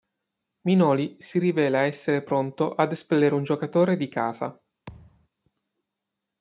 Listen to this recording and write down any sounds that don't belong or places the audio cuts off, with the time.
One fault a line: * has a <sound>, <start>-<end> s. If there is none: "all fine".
* has a thud, 4.9-5.3 s